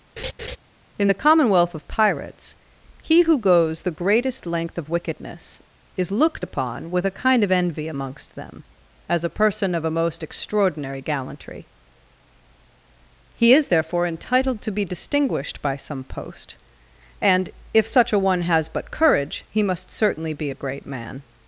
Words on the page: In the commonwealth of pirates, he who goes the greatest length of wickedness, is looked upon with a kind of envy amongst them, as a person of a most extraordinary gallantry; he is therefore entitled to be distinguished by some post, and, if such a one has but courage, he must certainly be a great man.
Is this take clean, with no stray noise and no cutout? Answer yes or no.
no